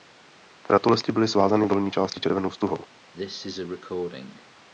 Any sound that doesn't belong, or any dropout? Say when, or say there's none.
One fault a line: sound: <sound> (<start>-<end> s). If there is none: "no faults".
sound: cough (3.1-4.5 s)